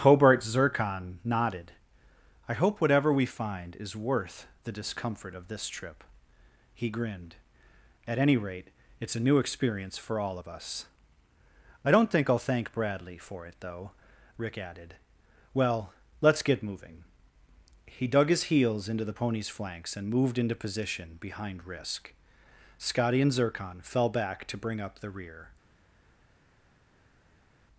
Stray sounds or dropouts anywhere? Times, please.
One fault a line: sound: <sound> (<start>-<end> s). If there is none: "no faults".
no faults